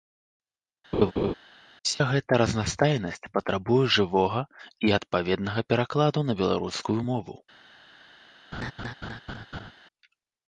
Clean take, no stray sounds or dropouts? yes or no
no